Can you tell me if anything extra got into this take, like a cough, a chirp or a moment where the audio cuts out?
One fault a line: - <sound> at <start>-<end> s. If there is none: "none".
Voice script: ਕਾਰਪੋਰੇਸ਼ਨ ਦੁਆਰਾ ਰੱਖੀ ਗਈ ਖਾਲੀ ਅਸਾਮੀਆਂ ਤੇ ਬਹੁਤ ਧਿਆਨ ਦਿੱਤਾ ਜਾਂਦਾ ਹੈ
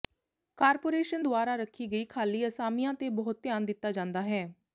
none